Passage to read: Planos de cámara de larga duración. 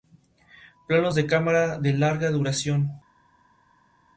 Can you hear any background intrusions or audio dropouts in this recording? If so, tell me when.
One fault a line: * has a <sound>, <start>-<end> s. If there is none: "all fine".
all fine